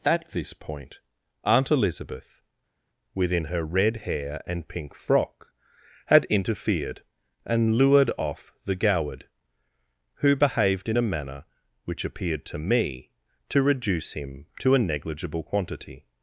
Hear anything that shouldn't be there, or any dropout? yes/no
no